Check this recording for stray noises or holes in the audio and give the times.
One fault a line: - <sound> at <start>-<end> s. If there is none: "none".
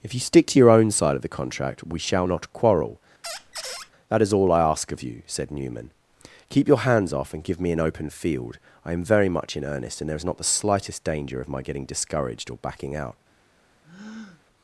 - squeak at 3.2-3.9 s
- breath at 13.8-14.4 s